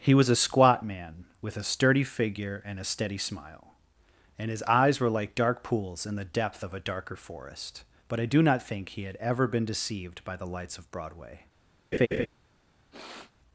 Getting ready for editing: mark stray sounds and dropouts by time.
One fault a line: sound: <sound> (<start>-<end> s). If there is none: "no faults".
sound: laugh (11.9-12.3 s)
sound: sniff (12.9-13.3 s)